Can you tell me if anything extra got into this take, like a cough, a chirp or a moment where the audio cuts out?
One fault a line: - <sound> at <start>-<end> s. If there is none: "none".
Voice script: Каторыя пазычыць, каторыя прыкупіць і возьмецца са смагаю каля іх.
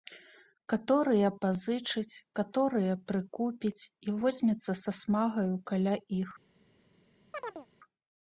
- chirp at 7.3-7.7 s